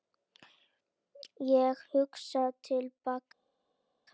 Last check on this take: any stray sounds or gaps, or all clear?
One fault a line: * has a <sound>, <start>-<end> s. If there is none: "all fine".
all fine